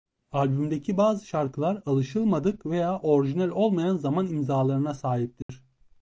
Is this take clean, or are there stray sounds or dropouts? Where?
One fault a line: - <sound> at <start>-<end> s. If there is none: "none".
- dropout at 5.4-5.5 s